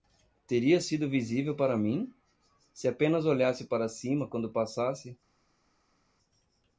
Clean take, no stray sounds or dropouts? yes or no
yes